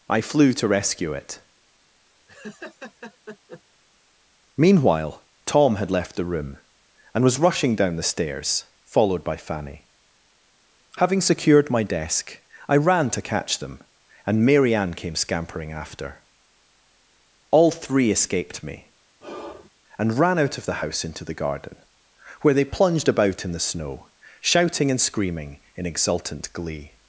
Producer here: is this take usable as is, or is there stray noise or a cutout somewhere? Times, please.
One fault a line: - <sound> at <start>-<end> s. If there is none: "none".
- laugh at 2.3-3.6 s
- sigh at 19.2-19.7 s